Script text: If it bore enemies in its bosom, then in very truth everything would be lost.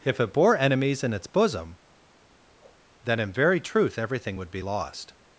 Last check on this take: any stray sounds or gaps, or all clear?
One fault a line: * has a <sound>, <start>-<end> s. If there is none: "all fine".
all fine